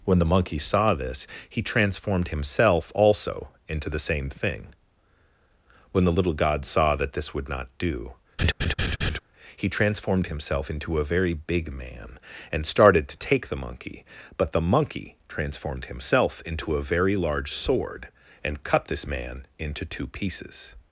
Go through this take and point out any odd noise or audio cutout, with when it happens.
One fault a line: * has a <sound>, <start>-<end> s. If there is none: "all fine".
* has a laugh, 8.4-9.2 s